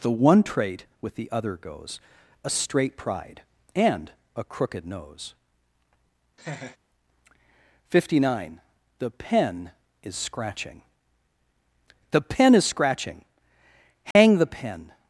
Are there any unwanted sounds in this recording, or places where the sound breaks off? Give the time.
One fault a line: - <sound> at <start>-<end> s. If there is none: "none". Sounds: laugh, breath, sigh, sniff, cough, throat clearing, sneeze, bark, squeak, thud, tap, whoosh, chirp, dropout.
- laugh at 6.4-6.8 s
- dropout at 14.1-14.2 s